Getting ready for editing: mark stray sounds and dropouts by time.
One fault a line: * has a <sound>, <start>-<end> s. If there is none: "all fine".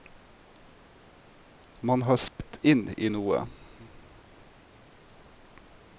* has a dropout, 2.3-2.4 s